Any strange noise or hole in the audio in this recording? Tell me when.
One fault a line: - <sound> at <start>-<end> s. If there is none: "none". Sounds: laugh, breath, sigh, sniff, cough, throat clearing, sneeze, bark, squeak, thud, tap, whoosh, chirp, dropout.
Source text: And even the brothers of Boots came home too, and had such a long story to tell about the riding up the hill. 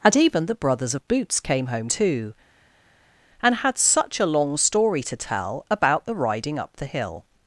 none